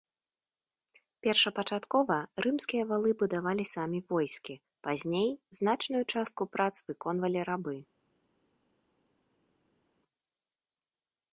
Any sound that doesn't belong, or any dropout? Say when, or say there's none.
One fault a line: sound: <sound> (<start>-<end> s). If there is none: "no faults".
no faults